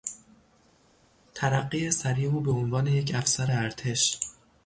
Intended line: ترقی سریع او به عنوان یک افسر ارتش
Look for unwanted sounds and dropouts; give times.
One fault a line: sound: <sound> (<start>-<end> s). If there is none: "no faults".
no faults